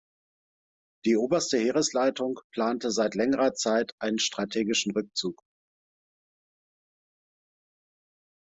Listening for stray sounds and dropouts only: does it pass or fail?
pass